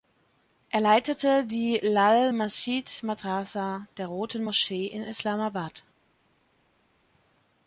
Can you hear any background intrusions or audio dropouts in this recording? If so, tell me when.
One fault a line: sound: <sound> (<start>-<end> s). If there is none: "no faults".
no faults